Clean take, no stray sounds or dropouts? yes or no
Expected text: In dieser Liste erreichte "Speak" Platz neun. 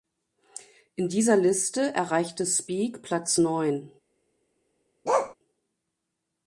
no